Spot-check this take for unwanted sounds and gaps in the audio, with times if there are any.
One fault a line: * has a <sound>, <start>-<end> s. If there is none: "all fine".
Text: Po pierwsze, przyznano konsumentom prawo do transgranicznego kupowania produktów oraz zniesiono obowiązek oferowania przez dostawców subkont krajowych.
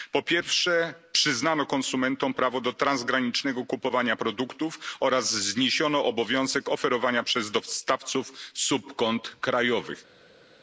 all fine